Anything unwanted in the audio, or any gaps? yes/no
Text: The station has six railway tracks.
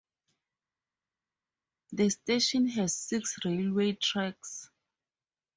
no